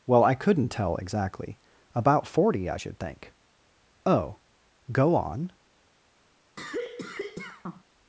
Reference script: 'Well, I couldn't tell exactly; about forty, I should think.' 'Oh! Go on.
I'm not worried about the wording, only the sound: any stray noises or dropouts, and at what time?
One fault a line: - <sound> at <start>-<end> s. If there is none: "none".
- cough at 6.6-7.8 s